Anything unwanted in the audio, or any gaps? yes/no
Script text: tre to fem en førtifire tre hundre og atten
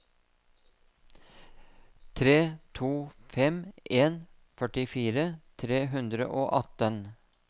no